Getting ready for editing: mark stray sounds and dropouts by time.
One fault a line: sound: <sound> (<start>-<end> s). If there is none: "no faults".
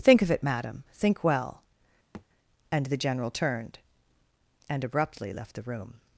sound: thud (2.1-2.3 s)